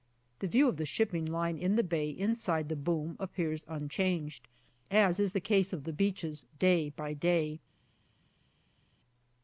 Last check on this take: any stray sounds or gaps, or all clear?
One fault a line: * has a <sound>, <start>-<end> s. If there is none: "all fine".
all fine